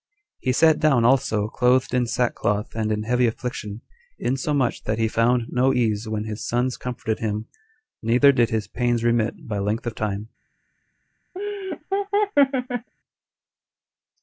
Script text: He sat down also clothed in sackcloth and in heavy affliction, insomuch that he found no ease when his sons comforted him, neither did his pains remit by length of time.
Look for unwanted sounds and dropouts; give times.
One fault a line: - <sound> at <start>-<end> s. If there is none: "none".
- laugh at 11.3-12.9 s